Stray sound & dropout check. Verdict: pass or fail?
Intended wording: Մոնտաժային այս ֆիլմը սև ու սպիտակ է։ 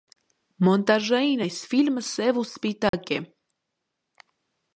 fail